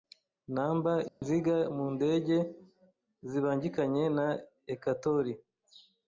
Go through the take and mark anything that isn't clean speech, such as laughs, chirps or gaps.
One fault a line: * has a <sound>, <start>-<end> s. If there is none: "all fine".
* has a dropout, 1.1-1.2 s